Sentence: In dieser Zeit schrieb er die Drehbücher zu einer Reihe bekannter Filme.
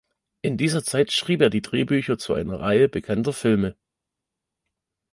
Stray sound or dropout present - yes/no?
no